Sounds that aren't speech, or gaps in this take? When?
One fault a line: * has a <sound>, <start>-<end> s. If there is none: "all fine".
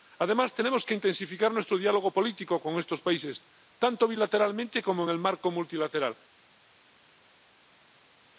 all fine